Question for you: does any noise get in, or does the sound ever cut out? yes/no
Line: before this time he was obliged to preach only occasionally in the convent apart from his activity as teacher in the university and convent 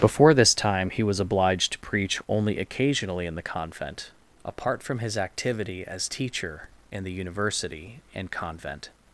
no